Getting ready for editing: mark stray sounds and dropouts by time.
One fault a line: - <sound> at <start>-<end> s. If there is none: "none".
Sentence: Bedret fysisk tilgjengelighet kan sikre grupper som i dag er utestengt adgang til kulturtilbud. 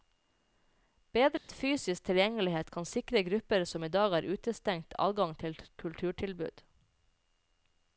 - dropout at 1.4-1.5 s